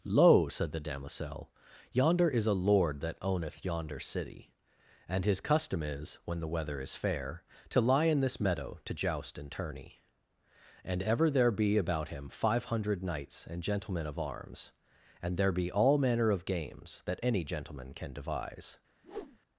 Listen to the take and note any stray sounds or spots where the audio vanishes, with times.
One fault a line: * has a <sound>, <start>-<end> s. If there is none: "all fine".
* has a whoosh, 19.0-19.4 s